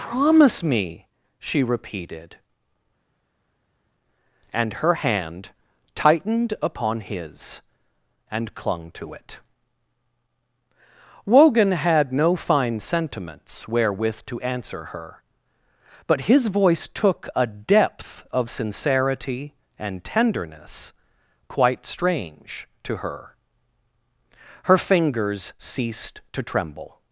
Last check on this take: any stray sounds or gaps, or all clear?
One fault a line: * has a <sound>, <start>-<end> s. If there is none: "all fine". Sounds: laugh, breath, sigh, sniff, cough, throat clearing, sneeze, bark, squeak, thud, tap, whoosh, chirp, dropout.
all fine